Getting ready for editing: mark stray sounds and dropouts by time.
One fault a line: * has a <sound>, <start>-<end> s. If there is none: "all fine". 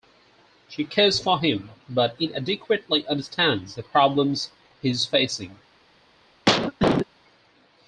* has a cough, 6.5-7.1 s